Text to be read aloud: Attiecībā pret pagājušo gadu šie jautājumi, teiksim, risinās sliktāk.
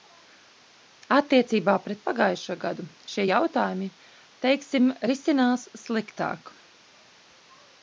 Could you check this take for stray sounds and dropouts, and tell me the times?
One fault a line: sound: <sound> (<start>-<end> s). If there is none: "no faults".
no faults